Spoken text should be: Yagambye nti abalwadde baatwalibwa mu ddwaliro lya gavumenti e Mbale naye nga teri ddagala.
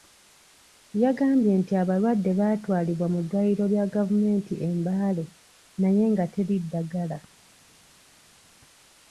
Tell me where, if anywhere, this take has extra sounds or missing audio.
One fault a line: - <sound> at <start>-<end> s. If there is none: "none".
none